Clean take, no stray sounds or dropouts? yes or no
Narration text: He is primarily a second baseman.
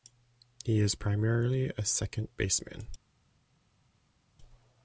yes